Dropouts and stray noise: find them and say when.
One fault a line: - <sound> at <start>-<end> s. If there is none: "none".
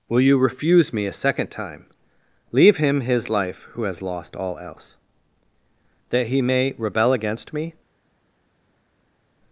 none